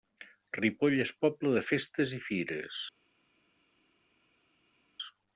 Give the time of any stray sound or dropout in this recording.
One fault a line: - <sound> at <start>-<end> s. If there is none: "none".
none